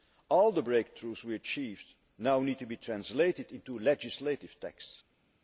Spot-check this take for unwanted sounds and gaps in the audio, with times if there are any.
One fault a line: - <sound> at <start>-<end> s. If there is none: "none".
none